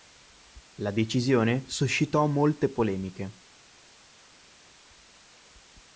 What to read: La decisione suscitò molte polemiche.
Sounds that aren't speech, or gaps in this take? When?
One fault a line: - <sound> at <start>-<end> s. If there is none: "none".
none